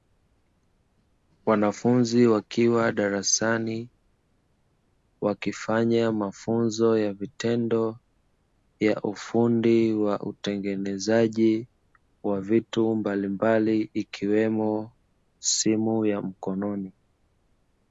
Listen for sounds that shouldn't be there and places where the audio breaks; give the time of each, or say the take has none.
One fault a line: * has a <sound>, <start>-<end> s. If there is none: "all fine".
all fine